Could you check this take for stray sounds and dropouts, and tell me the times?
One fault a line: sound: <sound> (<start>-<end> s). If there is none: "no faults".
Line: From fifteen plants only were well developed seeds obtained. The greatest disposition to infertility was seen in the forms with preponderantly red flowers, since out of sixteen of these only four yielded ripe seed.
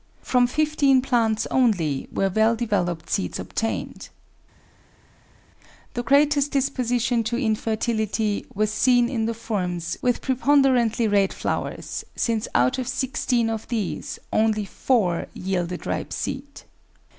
no faults